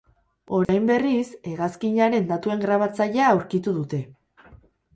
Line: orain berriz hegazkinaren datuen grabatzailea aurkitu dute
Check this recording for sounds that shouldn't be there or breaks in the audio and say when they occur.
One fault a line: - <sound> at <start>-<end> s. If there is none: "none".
- dropout at 0.6-0.7 s